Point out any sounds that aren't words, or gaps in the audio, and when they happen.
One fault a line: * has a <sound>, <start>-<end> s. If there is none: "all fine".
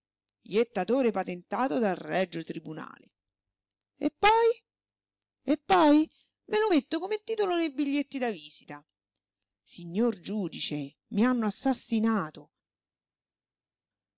all fine